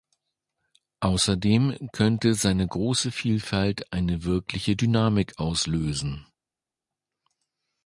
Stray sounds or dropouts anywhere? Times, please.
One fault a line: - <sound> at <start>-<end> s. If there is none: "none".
none